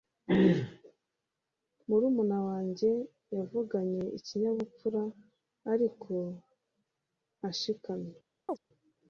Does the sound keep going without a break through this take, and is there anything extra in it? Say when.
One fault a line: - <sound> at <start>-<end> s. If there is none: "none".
- chirp at 8.5-8.6 s